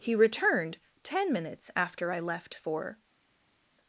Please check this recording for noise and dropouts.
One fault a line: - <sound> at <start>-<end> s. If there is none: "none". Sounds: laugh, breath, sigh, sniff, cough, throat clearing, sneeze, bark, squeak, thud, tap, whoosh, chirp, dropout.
none